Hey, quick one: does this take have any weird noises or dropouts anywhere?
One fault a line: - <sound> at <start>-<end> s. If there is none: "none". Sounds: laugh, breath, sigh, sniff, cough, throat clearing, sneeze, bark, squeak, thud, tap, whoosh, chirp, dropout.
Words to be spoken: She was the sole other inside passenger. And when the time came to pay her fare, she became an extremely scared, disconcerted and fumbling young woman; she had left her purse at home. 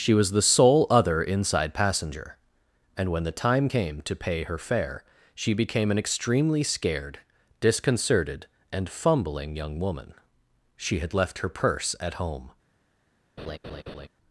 - laugh at 13.4-14.1 s